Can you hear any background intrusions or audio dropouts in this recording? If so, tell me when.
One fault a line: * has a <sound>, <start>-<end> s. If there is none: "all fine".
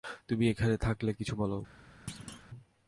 * has a thud, 2.1-2.5 s